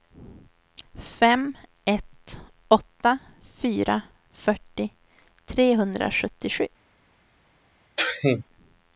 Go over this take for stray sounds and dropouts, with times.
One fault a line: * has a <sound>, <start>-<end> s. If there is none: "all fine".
* has a sneeze, 8.0-8.4 s